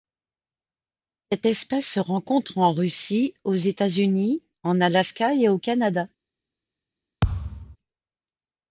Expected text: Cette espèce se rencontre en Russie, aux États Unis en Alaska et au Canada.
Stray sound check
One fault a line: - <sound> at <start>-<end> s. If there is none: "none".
- thud at 7.2-7.8 s